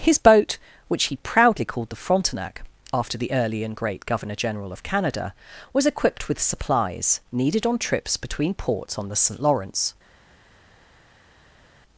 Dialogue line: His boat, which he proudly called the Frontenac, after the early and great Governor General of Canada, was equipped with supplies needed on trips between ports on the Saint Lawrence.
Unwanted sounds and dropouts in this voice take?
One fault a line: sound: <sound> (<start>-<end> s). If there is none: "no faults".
no faults